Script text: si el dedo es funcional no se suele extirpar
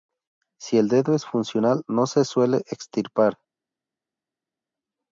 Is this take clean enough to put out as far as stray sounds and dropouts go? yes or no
yes